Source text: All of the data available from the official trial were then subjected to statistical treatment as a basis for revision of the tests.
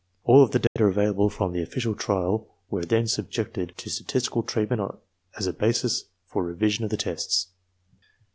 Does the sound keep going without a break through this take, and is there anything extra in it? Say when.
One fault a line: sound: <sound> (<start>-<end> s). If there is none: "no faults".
sound: dropout (0.7-0.8 s)